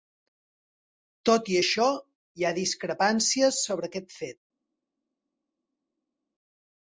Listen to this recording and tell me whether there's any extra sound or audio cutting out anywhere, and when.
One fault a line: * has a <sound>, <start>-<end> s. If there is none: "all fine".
all fine